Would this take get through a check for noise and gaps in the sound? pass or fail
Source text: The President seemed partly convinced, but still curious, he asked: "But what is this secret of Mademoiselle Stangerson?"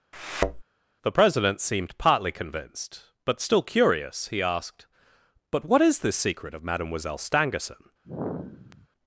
fail